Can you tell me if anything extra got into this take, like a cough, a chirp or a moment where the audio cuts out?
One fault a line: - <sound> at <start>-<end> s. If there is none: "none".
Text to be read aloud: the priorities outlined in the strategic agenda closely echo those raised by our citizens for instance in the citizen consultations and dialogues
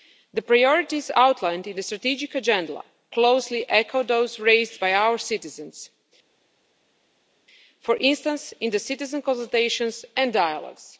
none